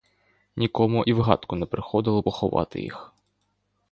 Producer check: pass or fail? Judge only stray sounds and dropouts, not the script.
pass